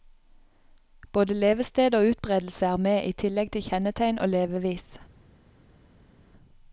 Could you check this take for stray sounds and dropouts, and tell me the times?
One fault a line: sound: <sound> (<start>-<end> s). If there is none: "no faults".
no faults